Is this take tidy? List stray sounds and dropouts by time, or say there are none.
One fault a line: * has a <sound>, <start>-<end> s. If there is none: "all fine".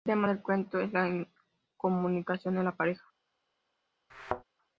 * has a thud, 4.1-4.4 s